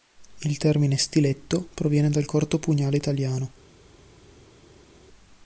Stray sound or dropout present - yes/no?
no